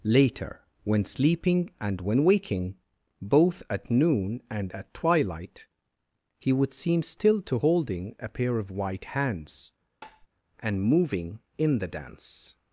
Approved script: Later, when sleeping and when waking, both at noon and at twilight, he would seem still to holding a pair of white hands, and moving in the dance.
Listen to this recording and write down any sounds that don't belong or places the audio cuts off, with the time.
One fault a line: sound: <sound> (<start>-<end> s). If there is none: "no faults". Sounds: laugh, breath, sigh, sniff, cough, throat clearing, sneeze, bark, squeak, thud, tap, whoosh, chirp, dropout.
sound: tap (10.0-10.3 s)